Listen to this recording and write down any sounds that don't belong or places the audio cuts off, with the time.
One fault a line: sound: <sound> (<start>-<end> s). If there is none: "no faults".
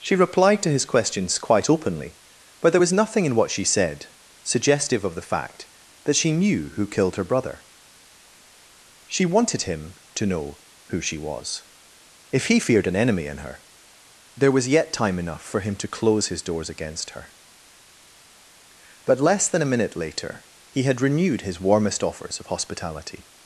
no faults